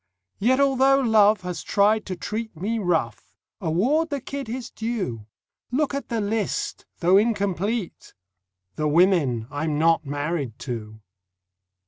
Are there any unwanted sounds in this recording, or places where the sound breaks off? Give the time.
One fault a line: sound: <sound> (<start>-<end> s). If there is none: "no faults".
no faults